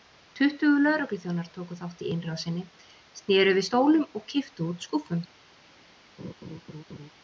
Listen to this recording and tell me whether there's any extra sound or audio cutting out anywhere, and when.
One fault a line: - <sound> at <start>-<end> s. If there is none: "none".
- laugh at 6.2-7.1 s